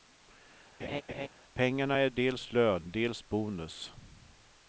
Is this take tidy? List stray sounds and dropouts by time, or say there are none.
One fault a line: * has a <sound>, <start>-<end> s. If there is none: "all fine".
* has a laugh, 0.8-1.3 s